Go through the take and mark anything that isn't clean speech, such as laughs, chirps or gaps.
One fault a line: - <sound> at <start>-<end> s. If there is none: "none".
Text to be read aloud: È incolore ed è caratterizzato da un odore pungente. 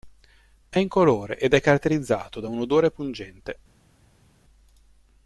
none